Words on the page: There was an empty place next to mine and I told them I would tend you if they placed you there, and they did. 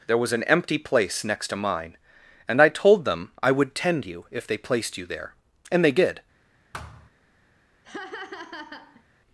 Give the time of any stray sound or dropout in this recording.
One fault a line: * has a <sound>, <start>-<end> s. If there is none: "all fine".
* has a thud, 6.7-7.1 s
* has a laugh, 7.8-9.0 s